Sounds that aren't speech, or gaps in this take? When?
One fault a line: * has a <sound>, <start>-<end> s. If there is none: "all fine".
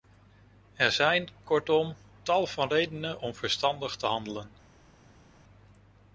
all fine